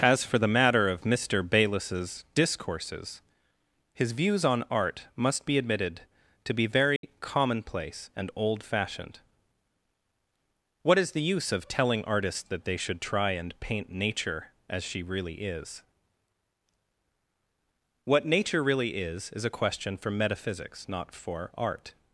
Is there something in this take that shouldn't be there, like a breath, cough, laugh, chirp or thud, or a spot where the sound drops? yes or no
yes